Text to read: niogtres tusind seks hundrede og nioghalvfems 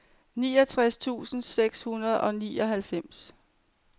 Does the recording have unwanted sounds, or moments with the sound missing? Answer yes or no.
no